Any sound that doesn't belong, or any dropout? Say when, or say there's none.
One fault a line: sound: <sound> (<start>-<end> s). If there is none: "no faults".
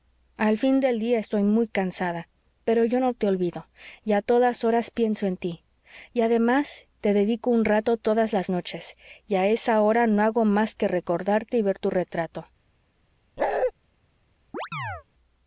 sound: bark (13.4-13.7 s)
sound: chirp (14.5-15.0 s)